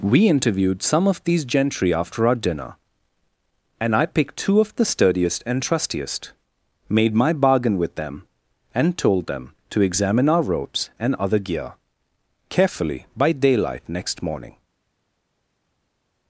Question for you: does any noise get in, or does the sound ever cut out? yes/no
no